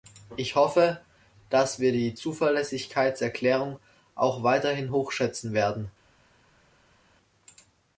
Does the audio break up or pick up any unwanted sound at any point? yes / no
no